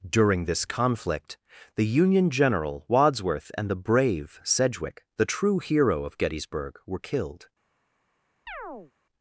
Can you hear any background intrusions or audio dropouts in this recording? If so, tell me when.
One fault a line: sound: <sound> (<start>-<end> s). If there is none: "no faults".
sound: chirp (8.5-8.9 s)